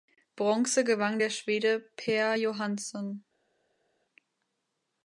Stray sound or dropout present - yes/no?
no